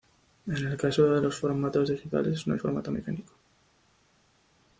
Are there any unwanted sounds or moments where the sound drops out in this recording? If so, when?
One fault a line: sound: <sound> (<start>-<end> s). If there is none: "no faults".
no faults